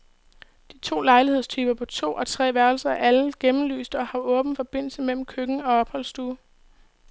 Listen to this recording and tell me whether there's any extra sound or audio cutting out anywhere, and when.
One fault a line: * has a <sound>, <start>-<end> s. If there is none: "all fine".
all fine